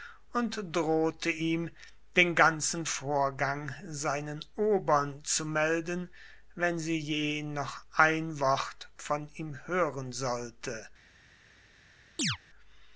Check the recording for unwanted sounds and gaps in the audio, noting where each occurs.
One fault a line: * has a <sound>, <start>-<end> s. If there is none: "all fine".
* has a chirp, 12.2-12.4 s